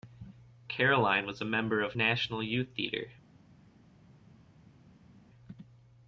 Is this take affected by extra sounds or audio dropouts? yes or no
no